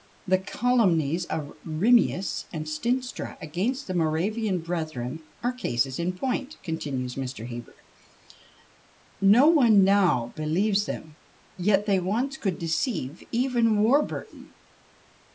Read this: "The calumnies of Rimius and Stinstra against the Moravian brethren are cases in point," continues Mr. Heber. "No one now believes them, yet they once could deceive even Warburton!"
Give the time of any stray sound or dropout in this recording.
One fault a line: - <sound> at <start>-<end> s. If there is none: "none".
none